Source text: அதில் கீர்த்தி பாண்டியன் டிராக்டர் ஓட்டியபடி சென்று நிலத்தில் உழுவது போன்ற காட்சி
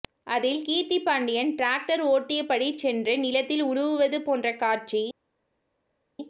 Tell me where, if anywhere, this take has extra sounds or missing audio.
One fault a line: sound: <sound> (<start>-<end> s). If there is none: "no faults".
no faults